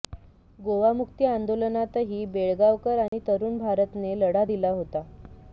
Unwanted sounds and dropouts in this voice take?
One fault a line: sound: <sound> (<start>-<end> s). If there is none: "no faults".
sound: dropout (3.1-3.1 s)